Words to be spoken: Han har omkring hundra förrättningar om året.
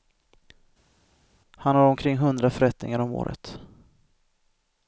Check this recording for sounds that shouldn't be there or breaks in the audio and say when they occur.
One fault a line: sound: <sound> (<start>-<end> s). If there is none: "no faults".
no faults